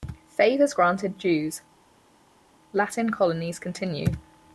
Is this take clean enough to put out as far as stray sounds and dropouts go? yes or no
yes